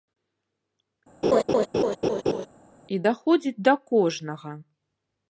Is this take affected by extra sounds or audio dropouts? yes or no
yes